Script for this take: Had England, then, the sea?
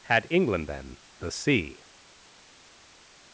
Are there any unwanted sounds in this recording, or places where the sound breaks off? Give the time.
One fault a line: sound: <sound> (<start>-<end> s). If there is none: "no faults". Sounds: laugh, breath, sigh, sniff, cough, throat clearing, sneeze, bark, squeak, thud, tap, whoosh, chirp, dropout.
no faults